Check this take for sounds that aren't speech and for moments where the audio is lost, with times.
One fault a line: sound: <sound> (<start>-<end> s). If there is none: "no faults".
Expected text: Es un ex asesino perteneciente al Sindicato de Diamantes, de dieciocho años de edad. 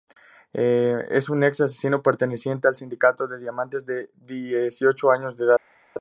no faults